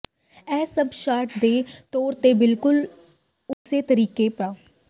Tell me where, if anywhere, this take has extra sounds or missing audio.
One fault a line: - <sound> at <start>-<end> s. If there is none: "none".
- dropout at 3.5-3.7 s